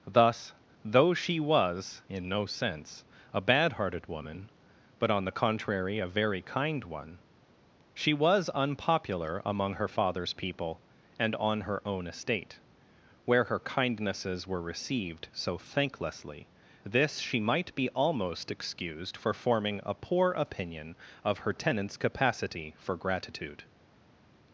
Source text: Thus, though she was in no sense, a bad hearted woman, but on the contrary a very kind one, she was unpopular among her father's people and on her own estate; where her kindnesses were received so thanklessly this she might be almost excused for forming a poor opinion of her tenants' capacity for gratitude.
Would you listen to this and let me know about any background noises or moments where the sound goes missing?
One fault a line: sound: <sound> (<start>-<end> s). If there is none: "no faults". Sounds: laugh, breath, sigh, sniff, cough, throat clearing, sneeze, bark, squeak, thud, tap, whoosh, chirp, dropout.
no faults